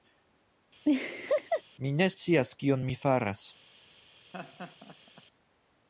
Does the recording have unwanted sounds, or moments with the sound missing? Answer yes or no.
yes